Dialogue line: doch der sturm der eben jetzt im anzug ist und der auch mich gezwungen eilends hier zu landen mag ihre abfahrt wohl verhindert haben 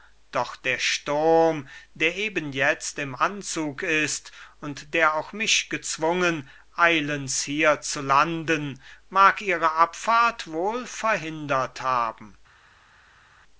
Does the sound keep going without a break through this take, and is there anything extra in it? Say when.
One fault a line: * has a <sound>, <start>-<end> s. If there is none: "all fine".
all fine